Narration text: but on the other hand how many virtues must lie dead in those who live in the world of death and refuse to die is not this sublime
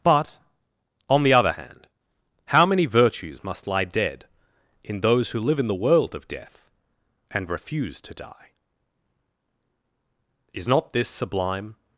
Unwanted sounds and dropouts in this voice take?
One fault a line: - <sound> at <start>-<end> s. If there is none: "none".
none